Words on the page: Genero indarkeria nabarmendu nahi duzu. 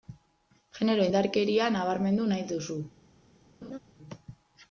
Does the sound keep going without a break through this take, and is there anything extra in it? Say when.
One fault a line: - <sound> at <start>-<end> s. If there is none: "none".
- laugh at 3.6-3.8 s